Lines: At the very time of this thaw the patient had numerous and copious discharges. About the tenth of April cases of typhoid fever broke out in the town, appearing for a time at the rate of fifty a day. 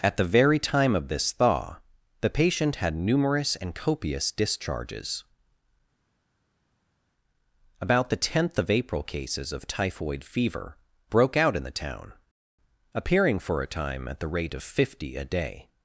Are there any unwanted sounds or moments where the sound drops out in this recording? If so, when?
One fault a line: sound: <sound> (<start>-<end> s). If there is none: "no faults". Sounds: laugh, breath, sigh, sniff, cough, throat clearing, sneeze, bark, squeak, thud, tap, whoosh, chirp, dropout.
no faults